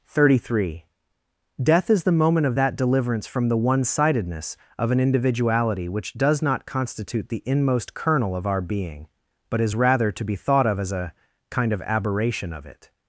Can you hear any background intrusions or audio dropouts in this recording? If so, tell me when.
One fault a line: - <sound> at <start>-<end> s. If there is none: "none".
none